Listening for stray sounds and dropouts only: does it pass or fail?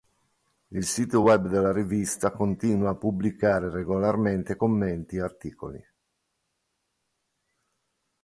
pass